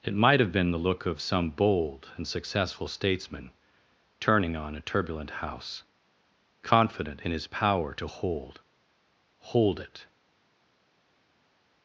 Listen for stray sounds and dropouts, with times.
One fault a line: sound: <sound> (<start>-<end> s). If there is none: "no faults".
no faults